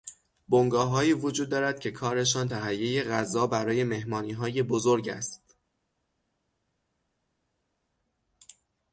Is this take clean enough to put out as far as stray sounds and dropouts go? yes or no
yes